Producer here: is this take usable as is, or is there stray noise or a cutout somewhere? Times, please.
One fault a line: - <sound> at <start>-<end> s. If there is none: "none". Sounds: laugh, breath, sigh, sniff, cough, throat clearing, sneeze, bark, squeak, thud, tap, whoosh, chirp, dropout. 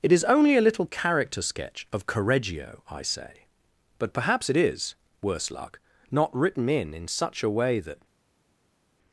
none